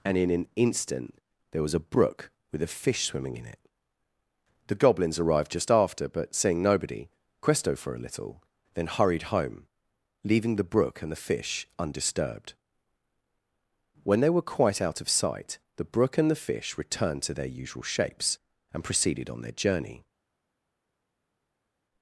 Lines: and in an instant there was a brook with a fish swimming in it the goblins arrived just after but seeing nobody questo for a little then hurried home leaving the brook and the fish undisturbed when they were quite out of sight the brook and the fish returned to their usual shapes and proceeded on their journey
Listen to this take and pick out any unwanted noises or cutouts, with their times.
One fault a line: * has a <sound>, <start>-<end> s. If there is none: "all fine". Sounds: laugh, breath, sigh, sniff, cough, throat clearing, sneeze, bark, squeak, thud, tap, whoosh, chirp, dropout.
all fine